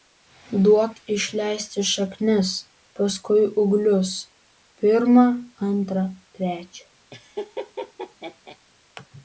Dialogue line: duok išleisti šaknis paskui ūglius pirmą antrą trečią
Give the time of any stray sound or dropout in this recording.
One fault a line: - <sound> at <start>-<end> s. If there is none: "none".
- laugh at 7.1-8.6 s